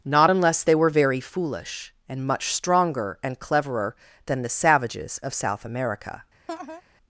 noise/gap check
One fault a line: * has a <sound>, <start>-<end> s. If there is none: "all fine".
* has a laugh, 6.5-6.8 s